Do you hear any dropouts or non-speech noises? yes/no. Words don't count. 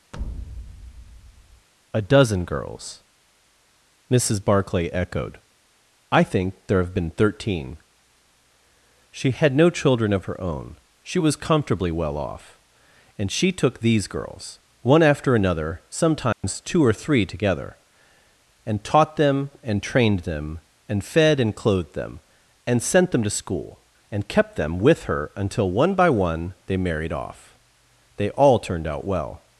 yes